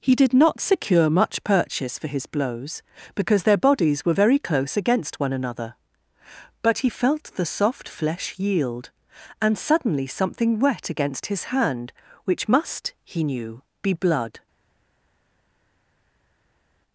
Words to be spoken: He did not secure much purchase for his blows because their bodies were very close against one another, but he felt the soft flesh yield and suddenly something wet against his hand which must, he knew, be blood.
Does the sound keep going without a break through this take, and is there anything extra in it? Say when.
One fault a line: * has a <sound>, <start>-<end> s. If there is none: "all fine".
all fine